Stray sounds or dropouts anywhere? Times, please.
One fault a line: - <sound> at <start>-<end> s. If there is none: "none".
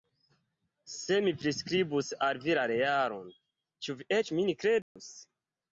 - dropout at 4.8-5.0 s